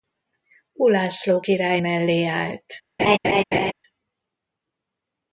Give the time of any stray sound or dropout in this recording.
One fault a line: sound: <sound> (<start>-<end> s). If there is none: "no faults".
sound: laugh (3.0-3.7 s)